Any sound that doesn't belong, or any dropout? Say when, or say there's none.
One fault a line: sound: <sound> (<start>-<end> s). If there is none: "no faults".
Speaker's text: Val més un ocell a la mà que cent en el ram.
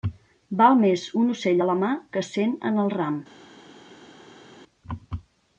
no faults